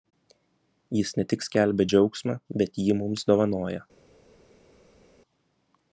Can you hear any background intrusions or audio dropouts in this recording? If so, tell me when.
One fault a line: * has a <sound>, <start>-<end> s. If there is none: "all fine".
all fine